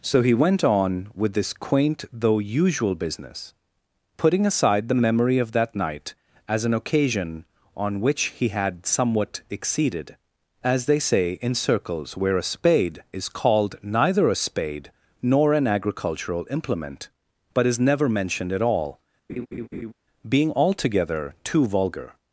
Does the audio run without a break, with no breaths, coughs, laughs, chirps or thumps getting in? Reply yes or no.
no